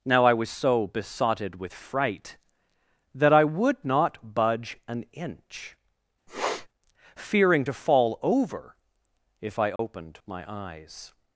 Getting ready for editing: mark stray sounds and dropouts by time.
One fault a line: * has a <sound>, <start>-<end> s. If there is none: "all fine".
* has a sniff, 6.3-6.7 s
* has a dropout, 9.8-9.8 s